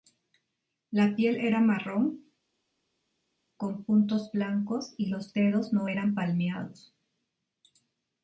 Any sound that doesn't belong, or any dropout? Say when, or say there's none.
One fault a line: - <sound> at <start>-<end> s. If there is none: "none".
none